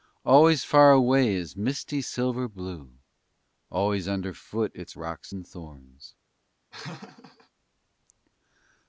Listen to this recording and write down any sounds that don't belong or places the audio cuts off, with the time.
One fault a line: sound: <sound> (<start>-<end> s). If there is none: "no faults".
sound: laugh (6.7-7.5 s)